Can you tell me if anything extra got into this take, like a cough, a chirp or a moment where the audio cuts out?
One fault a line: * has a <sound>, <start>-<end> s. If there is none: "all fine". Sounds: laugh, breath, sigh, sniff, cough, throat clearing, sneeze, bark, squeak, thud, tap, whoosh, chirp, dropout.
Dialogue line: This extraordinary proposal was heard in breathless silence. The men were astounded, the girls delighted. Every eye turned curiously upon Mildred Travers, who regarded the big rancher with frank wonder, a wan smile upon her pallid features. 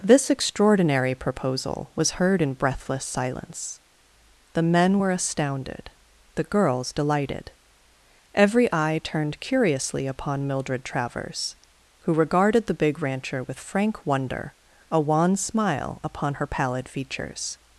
all fine